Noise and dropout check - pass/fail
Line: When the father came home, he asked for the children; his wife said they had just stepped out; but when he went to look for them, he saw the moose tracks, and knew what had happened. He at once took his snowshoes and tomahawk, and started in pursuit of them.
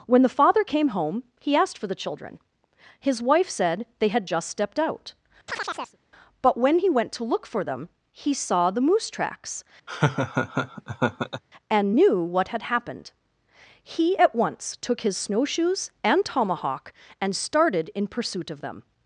fail